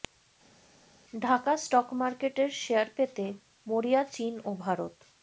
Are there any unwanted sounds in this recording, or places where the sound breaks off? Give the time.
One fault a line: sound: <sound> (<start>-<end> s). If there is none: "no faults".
no faults